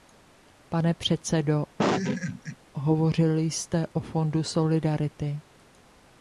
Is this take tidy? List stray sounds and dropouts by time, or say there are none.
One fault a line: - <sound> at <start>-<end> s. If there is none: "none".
- laugh at 1.8-2.6 s